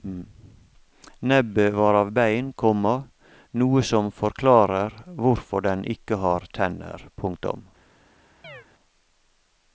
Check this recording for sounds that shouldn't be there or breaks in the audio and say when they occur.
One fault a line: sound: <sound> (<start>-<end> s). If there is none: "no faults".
sound: chirp (8.4-8.7 s)